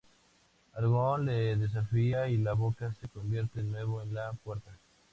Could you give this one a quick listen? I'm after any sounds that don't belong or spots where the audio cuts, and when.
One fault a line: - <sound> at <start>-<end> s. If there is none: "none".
none